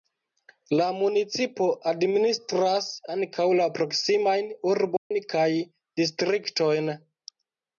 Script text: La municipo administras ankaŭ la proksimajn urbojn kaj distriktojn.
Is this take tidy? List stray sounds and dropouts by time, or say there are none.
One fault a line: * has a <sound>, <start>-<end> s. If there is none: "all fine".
* has a dropout, 5.0-5.1 s